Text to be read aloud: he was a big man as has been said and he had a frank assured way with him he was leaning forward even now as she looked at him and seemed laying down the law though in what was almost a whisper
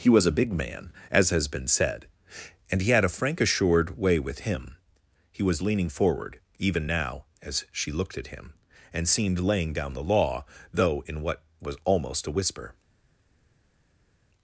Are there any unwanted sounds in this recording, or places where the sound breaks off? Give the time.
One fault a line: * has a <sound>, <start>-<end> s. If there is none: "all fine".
all fine